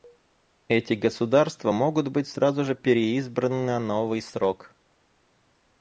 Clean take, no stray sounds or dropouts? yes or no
yes